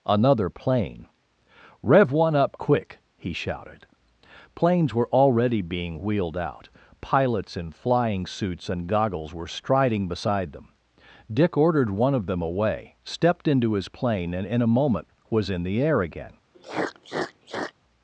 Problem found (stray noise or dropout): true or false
true